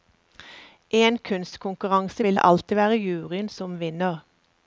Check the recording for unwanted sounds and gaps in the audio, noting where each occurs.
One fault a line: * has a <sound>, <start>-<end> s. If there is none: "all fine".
all fine